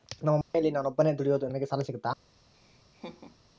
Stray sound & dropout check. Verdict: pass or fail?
fail